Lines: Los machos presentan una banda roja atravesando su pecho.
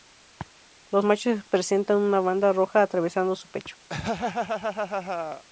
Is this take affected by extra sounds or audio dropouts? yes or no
yes